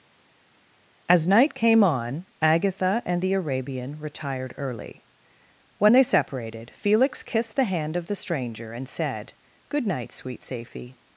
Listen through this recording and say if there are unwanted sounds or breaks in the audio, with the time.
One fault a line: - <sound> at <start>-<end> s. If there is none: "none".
none